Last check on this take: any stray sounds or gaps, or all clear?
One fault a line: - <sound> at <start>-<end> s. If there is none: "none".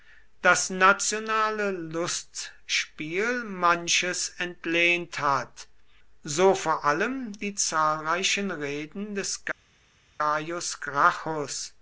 none